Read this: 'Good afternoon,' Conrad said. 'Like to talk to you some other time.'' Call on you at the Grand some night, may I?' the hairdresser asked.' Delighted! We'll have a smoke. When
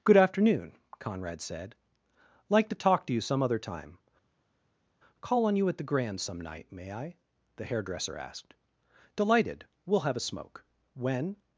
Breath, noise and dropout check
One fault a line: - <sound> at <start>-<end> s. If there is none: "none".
none